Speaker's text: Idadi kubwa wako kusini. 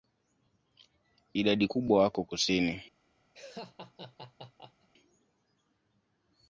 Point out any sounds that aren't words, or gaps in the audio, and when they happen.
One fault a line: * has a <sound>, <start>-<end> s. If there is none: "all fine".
* has a laugh, 3.3-4.9 s